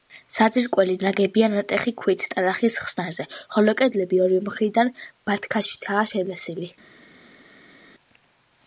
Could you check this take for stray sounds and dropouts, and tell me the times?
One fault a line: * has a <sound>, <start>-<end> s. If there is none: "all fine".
all fine